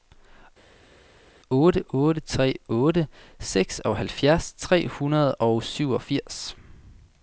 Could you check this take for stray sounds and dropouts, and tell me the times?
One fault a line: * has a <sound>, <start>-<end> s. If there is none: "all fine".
all fine